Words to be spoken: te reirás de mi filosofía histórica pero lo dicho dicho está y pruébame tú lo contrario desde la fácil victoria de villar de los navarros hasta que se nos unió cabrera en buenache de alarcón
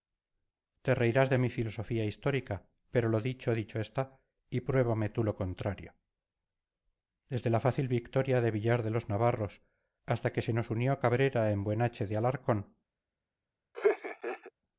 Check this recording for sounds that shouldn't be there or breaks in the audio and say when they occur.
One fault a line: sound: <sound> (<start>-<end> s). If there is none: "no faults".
sound: laugh (13.7-14.5 s)